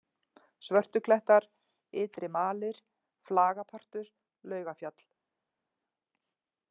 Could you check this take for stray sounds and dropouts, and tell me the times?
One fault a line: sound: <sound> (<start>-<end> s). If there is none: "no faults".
no faults